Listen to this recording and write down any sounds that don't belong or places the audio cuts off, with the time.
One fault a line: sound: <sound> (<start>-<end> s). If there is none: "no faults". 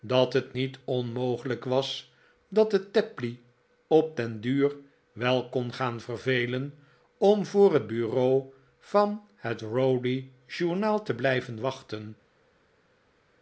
no faults